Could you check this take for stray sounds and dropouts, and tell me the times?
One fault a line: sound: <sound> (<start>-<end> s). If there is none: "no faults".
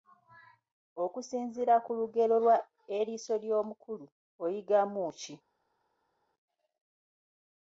no faults